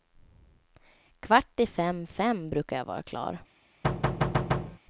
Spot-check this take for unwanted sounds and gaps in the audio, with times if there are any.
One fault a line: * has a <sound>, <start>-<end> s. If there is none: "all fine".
* has a thud, 3.8-4.8 s